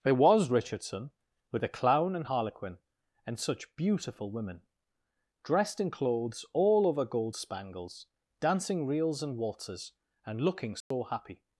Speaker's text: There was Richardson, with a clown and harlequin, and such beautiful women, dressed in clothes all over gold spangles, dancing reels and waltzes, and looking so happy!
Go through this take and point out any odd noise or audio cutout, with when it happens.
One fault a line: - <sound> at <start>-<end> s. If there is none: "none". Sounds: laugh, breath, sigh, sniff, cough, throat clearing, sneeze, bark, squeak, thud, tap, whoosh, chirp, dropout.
- dropout at 10.8-10.9 s